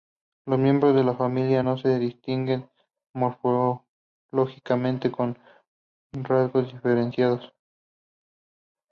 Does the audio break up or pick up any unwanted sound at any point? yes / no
no